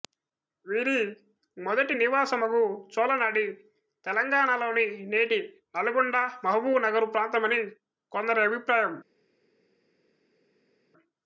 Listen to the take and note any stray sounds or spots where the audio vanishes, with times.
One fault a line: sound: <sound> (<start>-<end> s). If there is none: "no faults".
no faults